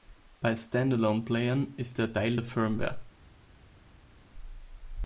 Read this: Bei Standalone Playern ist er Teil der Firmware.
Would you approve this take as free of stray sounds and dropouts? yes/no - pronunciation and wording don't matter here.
yes